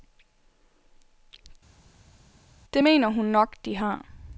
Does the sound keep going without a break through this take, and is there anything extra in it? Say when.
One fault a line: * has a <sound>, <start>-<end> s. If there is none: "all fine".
all fine